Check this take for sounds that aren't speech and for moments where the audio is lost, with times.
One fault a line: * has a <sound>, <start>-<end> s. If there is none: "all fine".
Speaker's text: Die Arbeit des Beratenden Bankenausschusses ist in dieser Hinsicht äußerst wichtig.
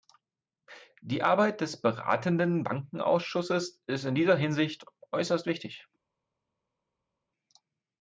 all fine